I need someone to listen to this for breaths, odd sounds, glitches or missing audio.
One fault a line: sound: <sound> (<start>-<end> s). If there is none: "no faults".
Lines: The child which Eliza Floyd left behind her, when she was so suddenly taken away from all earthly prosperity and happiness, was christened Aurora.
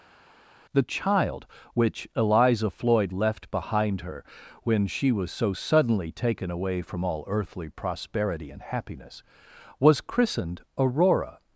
no faults